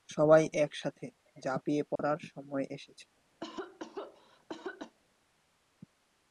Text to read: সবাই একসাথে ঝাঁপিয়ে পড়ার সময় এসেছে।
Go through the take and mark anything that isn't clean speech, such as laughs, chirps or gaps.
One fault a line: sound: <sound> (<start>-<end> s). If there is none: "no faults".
sound: dropout (2.0-2.0 s)
sound: cough (3.4-5.0 s)